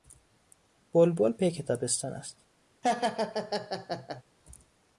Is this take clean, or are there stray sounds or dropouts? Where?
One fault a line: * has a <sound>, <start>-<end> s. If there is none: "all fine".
* has a laugh, 2.8-4.2 s